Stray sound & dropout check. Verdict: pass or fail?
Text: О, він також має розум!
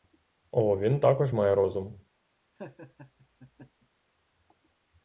fail